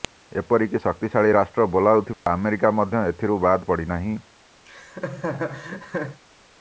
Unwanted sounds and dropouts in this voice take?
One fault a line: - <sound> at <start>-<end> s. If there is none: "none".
- dropout at 2.1-2.3 s
- laugh at 4.6-6.2 s